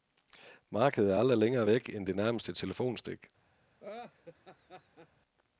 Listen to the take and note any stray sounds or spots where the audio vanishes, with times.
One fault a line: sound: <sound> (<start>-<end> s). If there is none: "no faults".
sound: laugh (3.8-5.1 s)